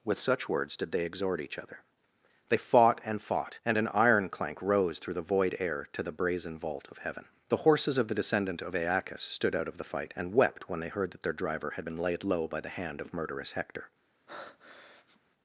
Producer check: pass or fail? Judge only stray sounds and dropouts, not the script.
fail